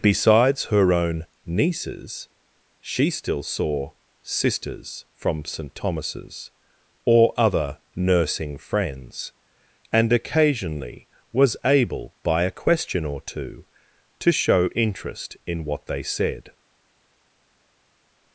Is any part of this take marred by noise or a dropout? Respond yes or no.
no